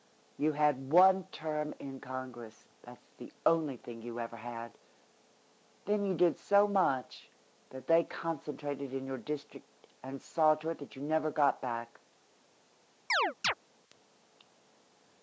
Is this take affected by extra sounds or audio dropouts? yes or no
yes